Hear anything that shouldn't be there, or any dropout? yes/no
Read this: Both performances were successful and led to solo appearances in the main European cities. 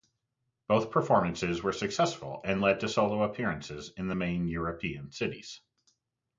no